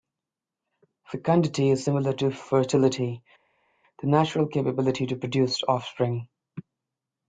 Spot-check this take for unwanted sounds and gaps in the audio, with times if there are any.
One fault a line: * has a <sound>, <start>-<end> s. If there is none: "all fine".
all fine